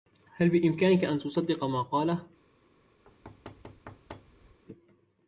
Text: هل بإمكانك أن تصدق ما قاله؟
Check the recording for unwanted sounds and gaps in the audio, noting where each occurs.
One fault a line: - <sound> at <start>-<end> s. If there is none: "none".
- thud at 3.0-4.6 s